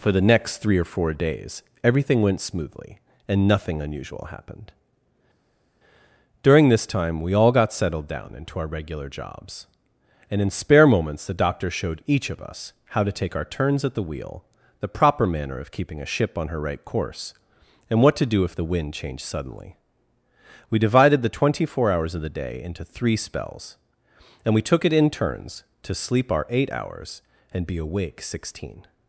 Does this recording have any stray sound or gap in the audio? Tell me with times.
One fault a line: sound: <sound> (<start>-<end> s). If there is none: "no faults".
no faults